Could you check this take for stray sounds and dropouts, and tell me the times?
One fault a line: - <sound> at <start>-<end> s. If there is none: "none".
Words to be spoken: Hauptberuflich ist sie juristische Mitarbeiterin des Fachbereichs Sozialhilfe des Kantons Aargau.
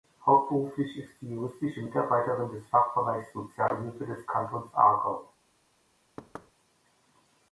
- thud at 6.2-6.5 s